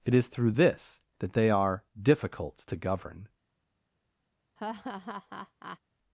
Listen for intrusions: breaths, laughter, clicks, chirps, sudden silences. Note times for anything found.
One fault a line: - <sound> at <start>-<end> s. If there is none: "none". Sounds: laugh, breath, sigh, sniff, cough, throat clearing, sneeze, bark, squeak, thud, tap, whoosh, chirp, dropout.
- laugh at 4.6-5.8 s